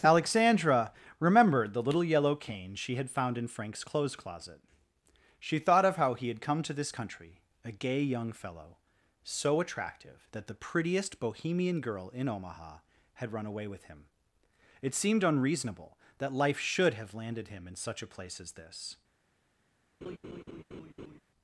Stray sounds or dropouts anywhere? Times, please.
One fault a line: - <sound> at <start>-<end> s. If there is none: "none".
- laugh at 20.0-21.2 s